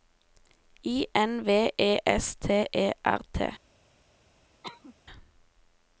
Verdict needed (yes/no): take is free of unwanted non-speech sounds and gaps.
no